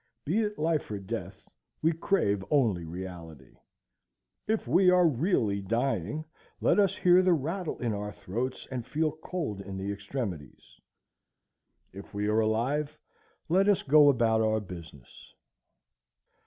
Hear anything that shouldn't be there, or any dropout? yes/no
no